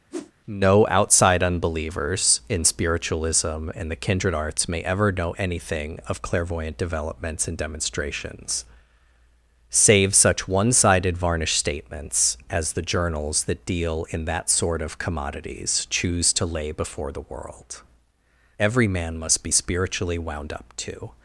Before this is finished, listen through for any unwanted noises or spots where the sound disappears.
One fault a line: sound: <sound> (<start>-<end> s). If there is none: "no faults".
sound: whoosh (0.1-0.3 s)